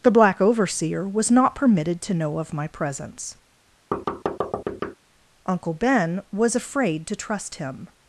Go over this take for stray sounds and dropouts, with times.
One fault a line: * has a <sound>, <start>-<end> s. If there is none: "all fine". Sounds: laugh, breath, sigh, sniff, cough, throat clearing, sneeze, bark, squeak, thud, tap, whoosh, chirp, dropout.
* has a thud, 3.9-5.0 s